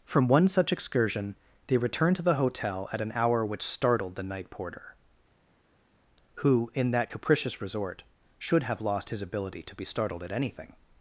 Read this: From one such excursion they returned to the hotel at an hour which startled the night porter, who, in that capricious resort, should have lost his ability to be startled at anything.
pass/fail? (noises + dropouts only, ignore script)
pass